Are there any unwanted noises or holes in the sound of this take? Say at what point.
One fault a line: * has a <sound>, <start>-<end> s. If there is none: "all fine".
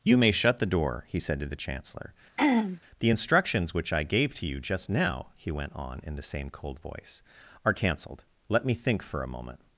* has a throat clearing, 2.4-2.8 s